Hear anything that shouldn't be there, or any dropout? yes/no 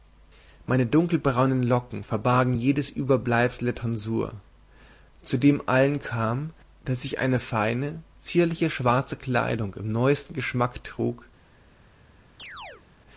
yes